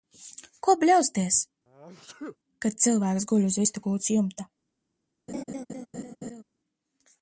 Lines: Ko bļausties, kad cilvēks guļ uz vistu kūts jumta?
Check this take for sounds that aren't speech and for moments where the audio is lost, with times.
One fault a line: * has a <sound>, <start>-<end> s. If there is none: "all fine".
* has a sneeze, 1.7-2.4 s
* has a laugh, 5.3-6.4 s